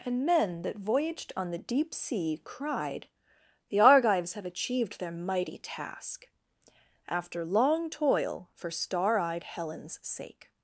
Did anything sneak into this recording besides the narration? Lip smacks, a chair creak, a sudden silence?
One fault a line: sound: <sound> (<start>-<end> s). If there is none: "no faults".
no faults